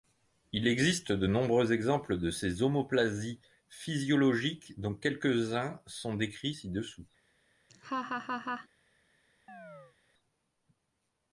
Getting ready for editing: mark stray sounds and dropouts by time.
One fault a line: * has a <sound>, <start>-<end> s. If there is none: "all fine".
* has a laugh, 7.7-8.7 s
* has a chirp, 9.5-10.0 s